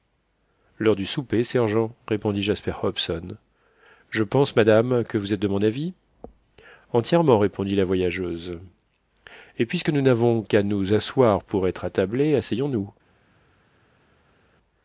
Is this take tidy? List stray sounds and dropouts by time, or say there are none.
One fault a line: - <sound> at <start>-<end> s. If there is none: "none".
none